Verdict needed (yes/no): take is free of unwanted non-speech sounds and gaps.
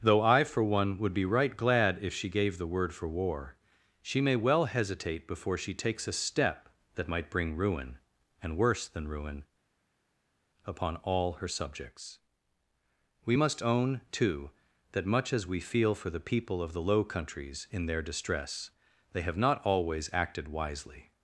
yes